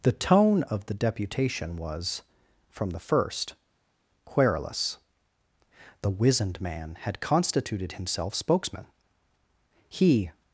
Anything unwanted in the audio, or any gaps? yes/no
no